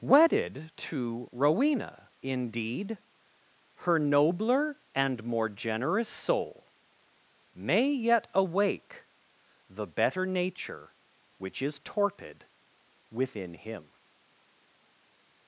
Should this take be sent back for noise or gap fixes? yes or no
no